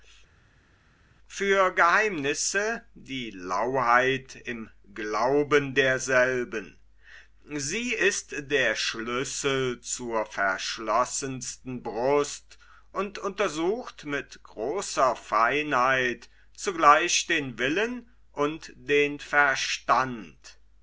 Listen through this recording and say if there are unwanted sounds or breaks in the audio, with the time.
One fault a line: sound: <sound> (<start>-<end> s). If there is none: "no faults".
no faults